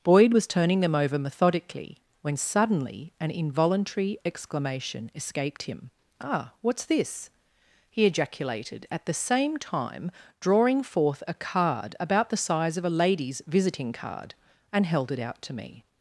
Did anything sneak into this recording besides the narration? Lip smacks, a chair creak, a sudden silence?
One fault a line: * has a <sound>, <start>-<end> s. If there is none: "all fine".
all fine